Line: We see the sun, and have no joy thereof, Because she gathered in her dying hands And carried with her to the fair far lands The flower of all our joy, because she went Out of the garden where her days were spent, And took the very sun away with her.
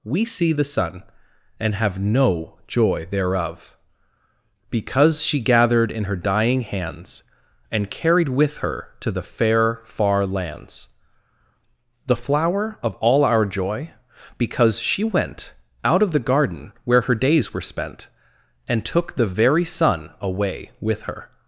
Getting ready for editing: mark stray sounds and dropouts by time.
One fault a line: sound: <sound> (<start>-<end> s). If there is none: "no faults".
no faults